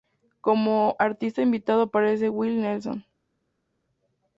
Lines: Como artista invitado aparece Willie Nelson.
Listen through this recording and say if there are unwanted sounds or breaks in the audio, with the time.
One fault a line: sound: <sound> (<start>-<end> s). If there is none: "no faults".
no faults